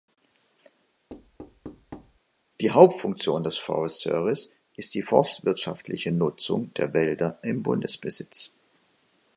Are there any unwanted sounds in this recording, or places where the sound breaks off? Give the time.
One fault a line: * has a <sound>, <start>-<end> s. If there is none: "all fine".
* has a thud, 1.1-2.2 s